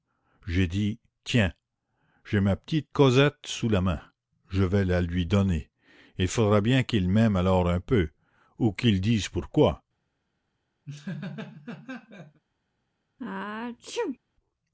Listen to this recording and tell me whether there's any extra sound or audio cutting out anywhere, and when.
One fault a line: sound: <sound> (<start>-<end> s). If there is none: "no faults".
sound: laugh (10.9-12.4 s)
sound: sneeze (13.2-14.2 s)